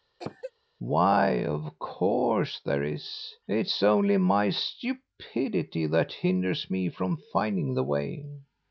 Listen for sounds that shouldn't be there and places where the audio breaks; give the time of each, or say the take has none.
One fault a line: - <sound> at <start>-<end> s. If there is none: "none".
- cough at 0.2-0.5 s